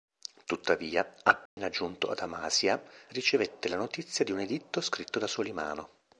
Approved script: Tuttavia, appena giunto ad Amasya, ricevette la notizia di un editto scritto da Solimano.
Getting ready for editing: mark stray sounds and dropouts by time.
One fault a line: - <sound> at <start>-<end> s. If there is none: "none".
- dropout at 1.5-1.6 s